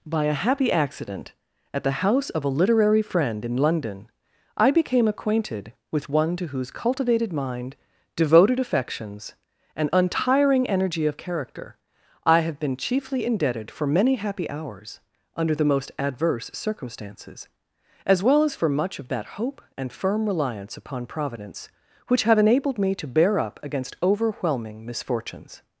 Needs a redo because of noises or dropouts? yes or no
no